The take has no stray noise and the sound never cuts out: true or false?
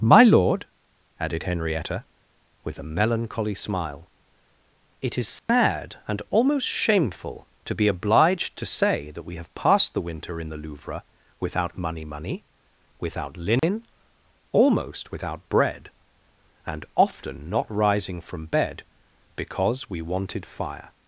false